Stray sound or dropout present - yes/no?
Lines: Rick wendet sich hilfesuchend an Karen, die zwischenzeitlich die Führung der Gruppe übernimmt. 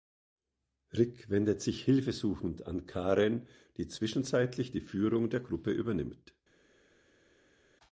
no